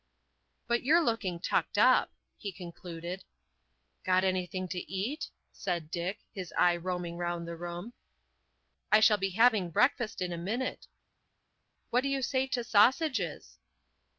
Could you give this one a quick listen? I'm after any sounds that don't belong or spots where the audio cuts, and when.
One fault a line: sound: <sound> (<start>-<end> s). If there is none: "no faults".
no faults